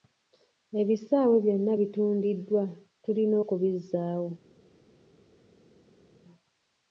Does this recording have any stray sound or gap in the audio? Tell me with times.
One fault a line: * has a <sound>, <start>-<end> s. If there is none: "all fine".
all fine